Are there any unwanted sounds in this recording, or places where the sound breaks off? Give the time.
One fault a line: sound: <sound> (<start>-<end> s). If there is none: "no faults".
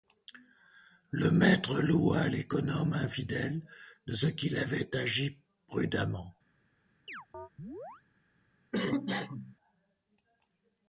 sound: chirp (7.1-8.0 s)
sound: cough (8.7-9.6 s)